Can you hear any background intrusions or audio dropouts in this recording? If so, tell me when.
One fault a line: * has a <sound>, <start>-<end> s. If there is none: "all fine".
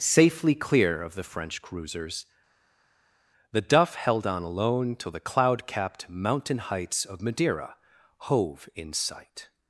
all fine